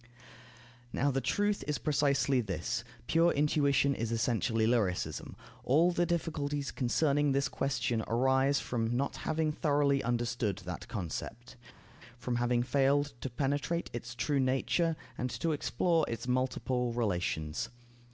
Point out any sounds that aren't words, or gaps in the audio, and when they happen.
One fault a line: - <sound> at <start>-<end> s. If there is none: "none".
none